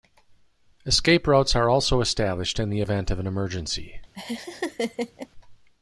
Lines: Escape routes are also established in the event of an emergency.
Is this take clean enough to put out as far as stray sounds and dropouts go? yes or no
no